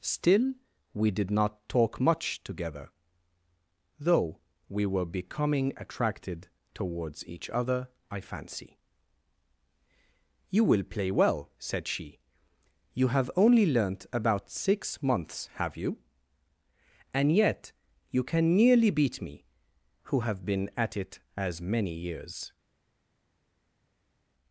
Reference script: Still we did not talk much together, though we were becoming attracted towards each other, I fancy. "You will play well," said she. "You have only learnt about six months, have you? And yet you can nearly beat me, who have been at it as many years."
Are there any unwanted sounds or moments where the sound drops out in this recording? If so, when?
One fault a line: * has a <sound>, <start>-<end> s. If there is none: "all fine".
all fine